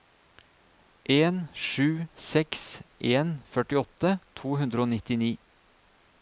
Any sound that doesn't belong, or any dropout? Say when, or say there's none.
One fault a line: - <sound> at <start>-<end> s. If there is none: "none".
none